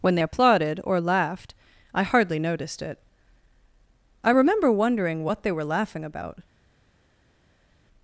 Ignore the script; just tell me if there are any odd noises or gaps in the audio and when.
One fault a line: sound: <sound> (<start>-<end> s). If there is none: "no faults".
no faults